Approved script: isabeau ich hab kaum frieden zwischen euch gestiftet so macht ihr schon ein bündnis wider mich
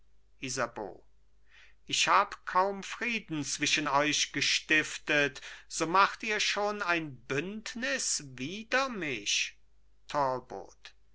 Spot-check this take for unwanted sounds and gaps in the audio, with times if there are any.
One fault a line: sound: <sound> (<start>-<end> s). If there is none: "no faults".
no faults